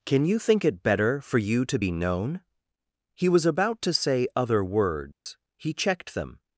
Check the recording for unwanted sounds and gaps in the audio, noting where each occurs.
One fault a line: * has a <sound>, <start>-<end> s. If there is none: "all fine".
* has a dropout, 5.1-5.3 s